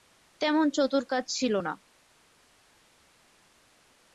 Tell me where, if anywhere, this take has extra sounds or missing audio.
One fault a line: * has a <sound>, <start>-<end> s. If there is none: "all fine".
all fine